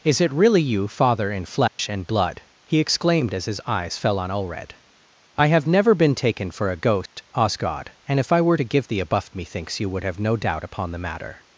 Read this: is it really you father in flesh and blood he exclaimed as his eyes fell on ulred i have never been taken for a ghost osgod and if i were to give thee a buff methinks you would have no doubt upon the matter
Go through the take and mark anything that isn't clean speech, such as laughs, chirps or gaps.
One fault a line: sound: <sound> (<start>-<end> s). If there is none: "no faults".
sound: dropout (1.7-1.8 s)
sound: dropout (7.1-7.2 s)